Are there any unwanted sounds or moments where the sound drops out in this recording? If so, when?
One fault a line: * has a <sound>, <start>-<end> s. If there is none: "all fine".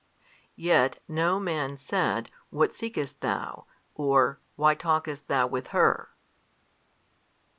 all fine